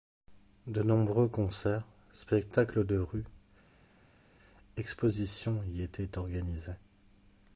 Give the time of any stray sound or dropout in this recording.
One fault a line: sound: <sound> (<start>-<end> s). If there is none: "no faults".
no faults